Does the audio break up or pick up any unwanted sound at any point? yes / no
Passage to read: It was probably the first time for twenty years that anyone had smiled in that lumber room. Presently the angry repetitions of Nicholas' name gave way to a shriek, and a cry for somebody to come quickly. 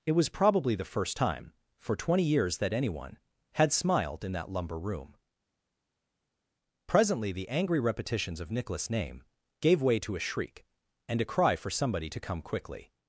no